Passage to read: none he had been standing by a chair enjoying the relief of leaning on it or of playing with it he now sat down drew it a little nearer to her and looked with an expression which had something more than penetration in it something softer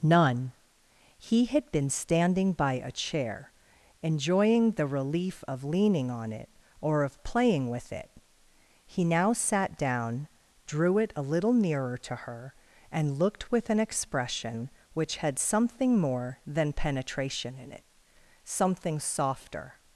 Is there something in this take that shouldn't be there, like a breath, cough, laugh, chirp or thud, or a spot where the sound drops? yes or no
no